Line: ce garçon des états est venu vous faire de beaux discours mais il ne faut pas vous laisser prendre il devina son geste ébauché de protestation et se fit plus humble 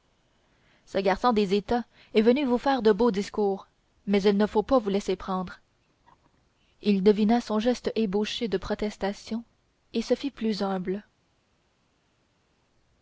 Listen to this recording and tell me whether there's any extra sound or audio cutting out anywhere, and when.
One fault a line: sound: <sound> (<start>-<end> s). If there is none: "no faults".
no faults